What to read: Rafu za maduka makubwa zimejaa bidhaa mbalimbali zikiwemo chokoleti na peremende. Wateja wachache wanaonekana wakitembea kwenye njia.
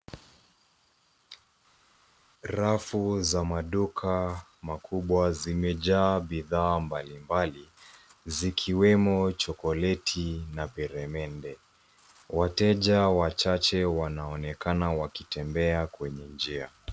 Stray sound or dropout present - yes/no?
no